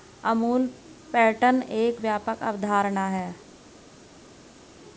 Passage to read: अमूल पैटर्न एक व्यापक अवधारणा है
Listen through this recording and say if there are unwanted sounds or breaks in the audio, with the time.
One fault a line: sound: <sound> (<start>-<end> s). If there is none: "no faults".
no faults